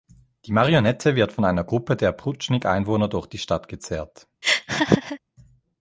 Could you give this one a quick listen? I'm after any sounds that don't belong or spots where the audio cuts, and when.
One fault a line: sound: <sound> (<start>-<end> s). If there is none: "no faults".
sound: laugh (4.4-5.2 s)